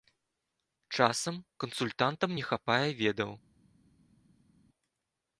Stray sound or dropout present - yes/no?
no